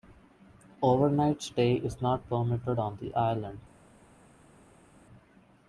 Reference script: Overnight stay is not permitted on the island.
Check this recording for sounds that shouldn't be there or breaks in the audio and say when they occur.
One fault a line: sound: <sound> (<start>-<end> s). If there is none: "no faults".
no faults